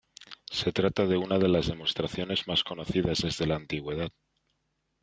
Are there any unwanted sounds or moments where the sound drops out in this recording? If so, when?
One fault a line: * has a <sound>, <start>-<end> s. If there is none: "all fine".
all fine